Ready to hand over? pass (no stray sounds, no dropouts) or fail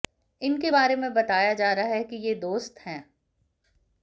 pass